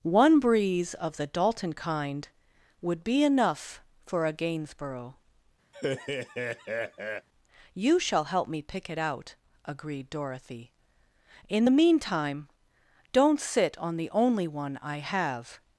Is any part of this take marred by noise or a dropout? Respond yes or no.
yes